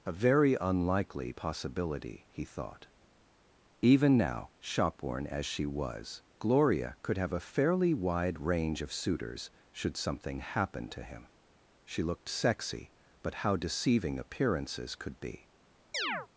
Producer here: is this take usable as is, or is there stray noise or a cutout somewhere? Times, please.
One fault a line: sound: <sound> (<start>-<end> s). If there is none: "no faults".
sound: chirp (15.9-16.3 s)